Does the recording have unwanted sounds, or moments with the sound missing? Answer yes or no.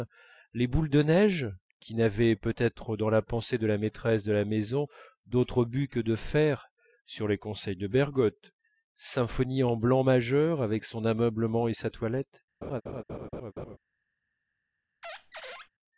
yes